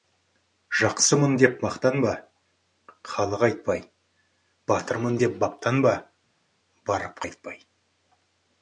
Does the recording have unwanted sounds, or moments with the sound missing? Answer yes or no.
no